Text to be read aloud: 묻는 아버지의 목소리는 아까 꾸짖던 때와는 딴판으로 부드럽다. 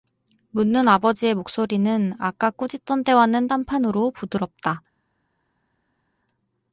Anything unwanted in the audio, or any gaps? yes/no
no